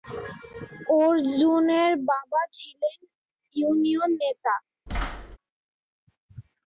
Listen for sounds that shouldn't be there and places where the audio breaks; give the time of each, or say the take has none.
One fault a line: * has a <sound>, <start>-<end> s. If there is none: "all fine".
* has a thud, 4.9-5.4 s